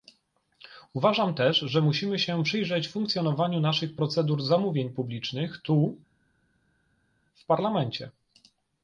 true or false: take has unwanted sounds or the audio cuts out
false